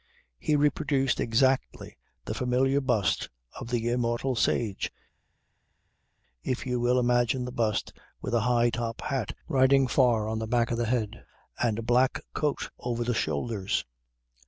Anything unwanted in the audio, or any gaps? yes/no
no